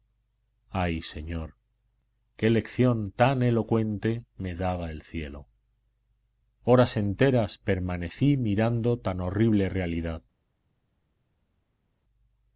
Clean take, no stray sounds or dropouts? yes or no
yes